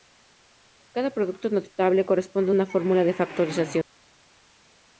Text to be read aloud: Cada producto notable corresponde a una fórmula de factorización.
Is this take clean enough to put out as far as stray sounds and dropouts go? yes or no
yes